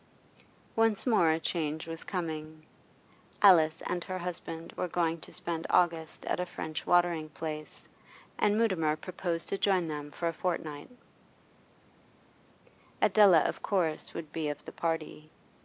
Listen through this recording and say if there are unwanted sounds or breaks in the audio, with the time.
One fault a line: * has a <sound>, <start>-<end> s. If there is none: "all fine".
all fine